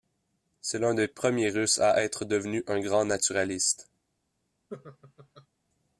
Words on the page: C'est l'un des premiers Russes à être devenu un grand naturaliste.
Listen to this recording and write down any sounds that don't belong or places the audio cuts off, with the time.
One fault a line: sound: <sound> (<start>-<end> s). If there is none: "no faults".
sound: laugh (4.7-5.5 s)